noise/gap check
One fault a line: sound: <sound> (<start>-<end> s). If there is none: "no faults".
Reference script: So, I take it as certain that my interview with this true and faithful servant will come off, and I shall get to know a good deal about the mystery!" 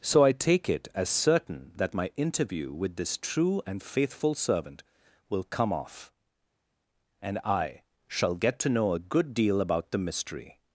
no faults